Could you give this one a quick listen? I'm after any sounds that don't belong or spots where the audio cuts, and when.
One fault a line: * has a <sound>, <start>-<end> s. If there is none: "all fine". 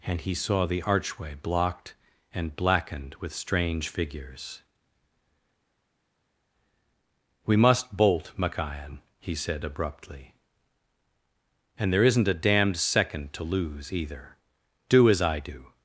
all fine